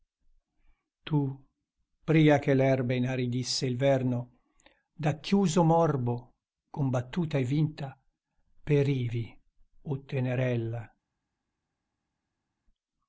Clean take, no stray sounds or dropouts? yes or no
yes